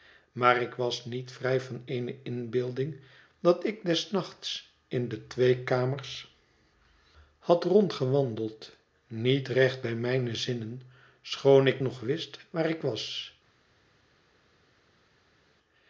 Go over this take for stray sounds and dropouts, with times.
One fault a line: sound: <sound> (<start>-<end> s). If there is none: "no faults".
no faults